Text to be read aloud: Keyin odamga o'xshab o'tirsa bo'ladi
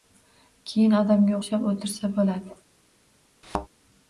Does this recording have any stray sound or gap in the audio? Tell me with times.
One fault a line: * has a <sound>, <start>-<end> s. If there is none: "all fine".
* has a thud, 3.4-3.7 s